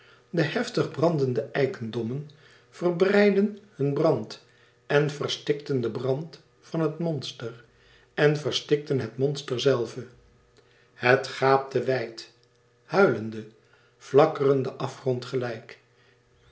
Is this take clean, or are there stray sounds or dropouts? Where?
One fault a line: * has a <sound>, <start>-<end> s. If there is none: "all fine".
all fine